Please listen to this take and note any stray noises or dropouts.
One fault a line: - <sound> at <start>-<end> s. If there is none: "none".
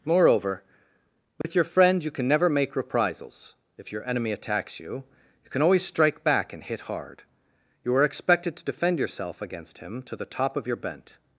- dropout at 1.4-1.4 s